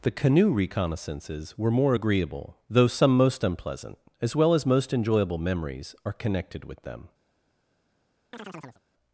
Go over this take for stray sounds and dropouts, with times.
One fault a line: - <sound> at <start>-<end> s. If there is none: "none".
- chirp at 8.3-8.8 s